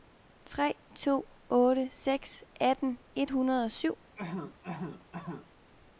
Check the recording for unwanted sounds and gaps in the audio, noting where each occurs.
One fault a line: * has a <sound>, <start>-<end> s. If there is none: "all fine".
* has a cough, 4.2-5.5 s